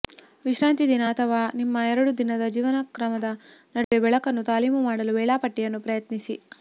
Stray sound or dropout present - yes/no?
yes